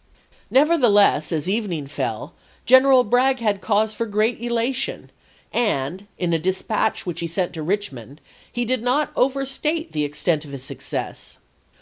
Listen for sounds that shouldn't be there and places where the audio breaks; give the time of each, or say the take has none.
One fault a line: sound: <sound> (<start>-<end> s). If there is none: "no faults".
no faults